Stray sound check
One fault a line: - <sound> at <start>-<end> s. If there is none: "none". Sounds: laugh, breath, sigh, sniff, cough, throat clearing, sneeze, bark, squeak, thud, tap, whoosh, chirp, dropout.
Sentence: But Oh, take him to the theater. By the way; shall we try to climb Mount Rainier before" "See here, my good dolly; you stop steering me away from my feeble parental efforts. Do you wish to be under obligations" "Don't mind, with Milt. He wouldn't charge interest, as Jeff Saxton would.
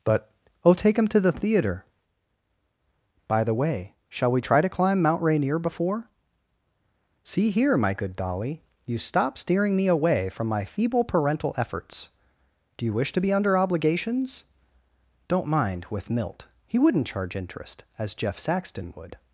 none